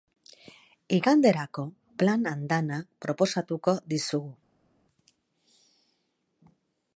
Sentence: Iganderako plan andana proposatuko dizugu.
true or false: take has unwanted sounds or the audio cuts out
false